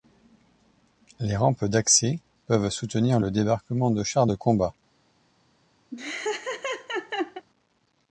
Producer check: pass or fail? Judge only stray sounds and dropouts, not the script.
fail